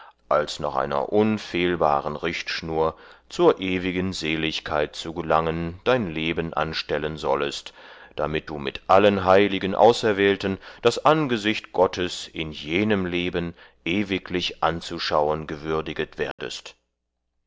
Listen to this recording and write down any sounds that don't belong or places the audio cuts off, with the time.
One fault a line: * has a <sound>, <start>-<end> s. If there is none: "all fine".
* has a dropout, 16.3-16.4 s